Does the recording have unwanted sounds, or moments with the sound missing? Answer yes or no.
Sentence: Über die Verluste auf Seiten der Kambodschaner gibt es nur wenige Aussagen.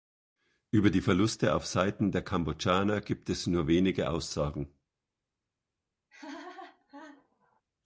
yes